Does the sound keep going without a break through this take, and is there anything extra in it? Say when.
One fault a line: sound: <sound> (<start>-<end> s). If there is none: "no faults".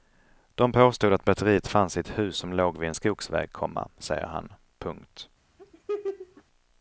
sound: laugh (5.6-6.4 s)